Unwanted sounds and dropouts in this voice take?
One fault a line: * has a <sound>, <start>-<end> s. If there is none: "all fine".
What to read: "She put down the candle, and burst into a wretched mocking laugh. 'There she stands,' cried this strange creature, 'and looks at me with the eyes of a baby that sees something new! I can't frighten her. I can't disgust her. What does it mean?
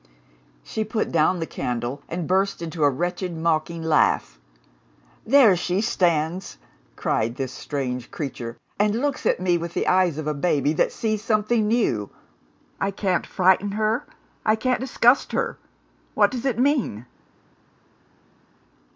all fine